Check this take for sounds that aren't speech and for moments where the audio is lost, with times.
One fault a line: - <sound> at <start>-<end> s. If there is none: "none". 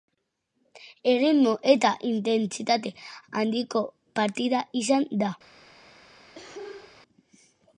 - cough at 6.3-7.0 s